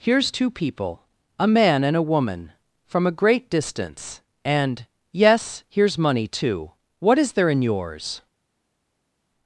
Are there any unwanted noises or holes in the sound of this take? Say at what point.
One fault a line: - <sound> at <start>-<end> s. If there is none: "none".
none